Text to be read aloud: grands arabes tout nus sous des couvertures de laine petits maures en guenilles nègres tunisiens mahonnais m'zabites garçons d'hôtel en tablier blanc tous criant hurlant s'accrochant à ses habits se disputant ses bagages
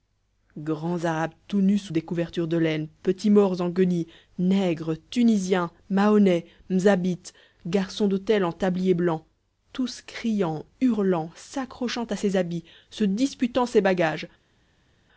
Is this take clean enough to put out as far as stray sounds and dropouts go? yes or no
yes